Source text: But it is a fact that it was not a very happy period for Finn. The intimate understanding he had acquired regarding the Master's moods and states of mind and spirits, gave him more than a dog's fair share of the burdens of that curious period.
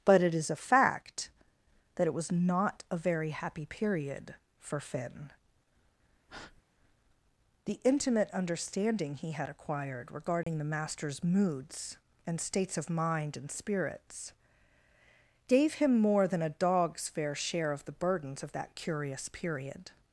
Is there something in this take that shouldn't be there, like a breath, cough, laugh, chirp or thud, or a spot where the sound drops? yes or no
yes